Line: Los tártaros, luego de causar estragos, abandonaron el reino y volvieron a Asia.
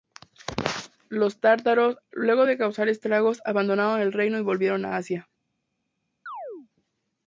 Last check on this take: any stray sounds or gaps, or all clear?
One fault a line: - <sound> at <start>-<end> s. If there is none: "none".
- chirp at 6.3-6.7 s